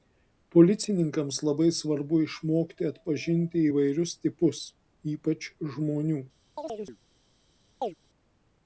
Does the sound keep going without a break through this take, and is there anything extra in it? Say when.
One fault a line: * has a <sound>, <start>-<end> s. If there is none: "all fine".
* has a chirp, 6.6-7.0 s
* has a chirp, 7.8-7.9 s